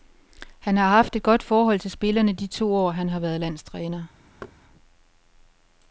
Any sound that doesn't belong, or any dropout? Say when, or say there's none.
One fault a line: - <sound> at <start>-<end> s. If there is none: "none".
- thud at 4.4-4.6 s